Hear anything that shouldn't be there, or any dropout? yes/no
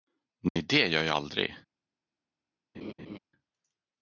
yes